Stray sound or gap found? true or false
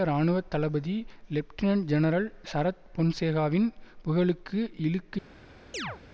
true